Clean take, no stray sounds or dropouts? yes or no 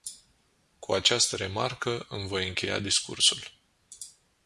yes